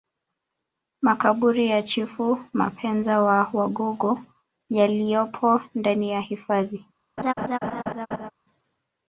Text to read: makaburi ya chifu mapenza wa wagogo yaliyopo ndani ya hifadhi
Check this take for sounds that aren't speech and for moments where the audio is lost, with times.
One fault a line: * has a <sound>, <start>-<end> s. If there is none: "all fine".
* has a laugh, 7.2-8.3 s